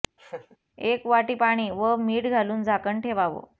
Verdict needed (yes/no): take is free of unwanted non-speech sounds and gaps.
no